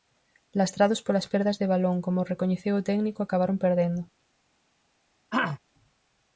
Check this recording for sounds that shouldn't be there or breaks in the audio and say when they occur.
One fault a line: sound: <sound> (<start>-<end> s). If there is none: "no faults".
sound: throat clearing (5.3-5.6 s)